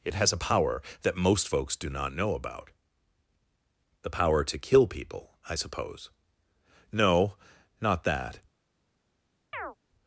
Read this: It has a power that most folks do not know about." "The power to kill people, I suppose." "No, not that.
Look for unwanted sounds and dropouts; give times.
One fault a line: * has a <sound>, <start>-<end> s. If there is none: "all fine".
* has a chirp, 9.5-9.8 s